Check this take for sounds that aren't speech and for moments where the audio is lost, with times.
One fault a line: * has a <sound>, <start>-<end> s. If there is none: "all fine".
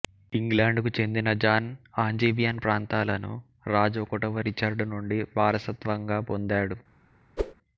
* has a whoosh, 7.4-7.5 s